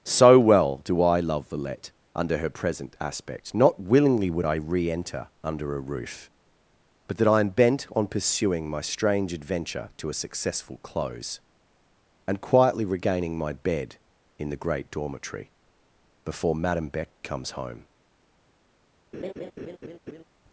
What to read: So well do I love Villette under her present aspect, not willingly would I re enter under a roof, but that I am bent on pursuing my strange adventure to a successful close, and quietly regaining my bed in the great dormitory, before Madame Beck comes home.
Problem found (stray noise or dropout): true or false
true